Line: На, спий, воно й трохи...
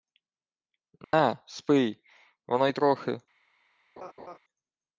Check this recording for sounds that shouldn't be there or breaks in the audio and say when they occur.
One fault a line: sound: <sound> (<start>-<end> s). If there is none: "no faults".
sound: dropout (1.0-1.1 s)
sound: laugh (4.0-4.4 s)